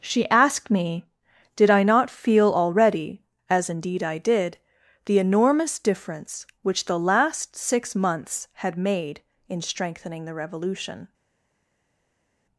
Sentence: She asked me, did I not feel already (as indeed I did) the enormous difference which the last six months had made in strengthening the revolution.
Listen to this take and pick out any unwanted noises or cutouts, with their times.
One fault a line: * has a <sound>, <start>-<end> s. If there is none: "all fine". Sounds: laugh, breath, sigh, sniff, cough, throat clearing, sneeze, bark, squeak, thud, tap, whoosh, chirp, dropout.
all fine